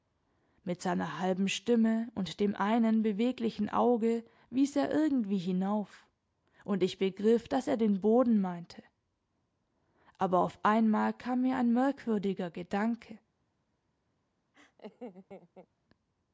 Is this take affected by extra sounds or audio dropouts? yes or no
yes